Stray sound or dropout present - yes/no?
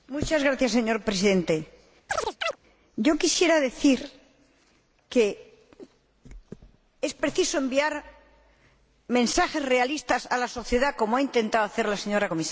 yes